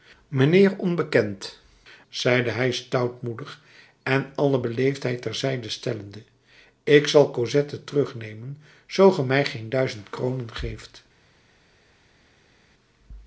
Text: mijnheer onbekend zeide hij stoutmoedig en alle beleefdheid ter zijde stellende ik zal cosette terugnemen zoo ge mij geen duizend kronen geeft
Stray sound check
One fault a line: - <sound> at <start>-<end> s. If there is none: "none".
none